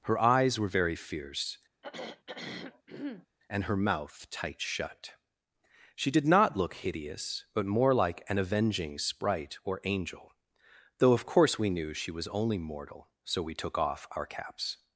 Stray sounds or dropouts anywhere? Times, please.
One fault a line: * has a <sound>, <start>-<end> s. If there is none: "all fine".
* has a throat clearing, 1.8-3.3 s